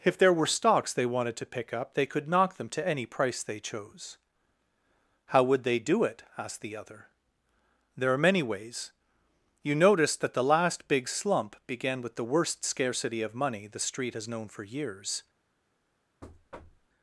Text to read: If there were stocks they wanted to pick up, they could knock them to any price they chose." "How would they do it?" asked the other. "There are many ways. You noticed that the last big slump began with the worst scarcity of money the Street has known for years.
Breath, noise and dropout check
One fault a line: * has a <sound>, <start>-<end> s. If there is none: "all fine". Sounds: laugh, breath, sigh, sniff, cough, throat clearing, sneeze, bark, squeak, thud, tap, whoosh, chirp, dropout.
* has a thud, 16.2-16.9 s